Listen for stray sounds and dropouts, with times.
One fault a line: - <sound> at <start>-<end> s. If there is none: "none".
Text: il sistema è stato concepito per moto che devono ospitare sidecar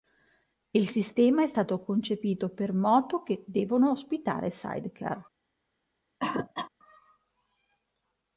- cough at 6.2-6.7 s